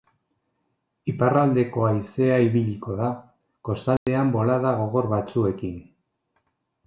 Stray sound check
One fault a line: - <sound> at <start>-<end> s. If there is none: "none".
- dropout at 4.0-4.1 s